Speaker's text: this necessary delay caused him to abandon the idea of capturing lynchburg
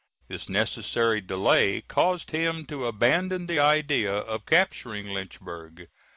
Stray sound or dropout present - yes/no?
no